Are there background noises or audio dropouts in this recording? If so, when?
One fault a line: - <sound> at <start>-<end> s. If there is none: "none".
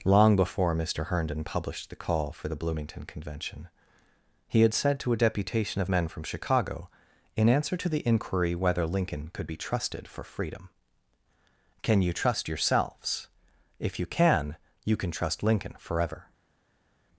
none